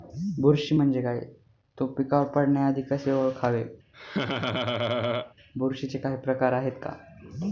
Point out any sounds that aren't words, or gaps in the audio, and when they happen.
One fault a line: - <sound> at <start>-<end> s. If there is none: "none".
- laugh at 3.9-5.3 s